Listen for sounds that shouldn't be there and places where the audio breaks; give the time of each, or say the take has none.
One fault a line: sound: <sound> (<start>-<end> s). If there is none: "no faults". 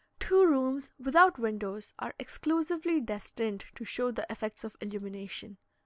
no faults